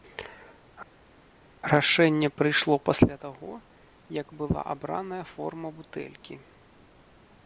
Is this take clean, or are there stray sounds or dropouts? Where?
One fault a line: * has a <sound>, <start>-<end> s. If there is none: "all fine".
all fine